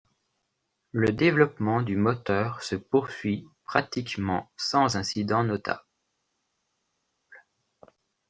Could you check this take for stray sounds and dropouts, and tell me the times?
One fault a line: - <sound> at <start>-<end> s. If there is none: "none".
none